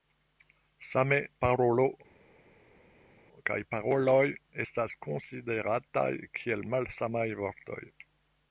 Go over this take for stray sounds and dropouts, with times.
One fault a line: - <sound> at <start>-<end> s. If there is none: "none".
none